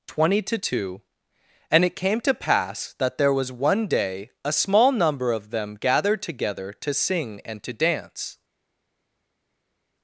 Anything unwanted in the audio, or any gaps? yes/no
no